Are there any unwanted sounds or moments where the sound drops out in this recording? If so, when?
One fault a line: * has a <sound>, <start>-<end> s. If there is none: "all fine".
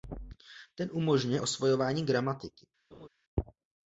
* has a laugh, 2.9-3.1 s